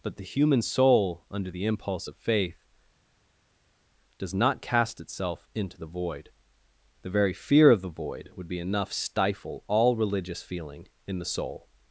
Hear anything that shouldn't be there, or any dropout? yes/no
no